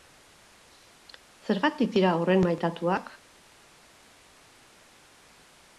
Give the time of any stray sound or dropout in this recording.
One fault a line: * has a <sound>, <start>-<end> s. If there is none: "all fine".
all fine